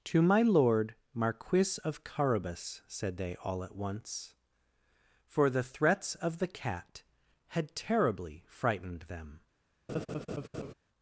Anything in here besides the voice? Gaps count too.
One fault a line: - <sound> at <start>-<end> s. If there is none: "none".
- laugh at 9.9-10.7 s